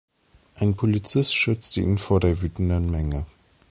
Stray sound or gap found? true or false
false